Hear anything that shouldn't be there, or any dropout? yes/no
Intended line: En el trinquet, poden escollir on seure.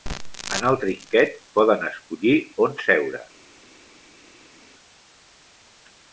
no